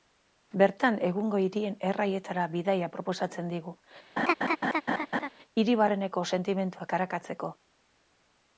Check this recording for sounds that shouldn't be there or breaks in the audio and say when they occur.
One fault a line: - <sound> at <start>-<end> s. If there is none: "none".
- laugh at 4.2-5.3 s